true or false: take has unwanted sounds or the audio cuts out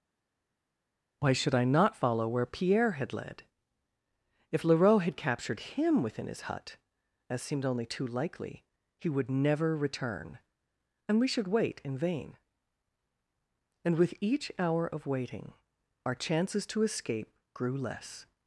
false